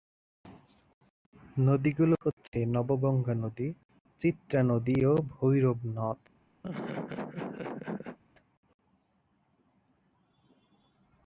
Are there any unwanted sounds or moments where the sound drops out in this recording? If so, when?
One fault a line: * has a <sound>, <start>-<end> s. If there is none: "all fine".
* has a laugh, 6.6-8.2 s